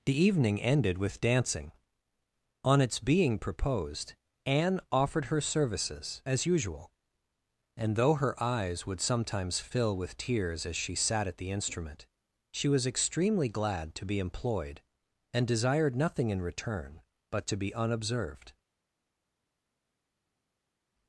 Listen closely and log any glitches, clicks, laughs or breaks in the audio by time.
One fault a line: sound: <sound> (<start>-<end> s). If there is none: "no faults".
no faults